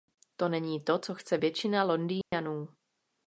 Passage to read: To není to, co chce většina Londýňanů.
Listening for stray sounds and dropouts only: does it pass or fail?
fail